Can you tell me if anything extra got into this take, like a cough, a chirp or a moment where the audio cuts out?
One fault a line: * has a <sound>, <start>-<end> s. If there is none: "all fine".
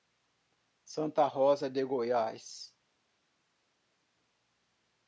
all fine